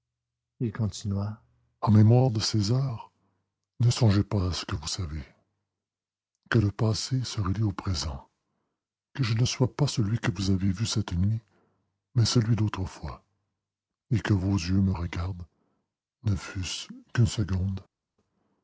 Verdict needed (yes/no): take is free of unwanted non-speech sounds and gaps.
yes